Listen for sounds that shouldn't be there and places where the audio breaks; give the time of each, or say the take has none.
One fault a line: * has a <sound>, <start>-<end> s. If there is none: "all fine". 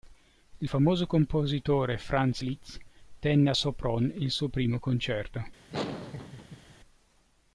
* has a laugh, 5.7-6.7 s